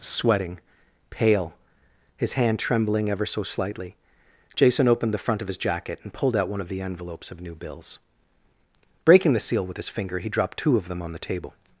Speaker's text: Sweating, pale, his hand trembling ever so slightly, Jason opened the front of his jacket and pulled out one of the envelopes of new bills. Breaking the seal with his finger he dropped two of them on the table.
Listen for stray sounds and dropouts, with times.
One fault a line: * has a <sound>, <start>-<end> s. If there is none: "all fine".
all fine